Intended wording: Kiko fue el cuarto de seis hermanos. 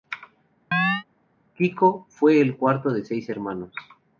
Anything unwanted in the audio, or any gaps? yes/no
yes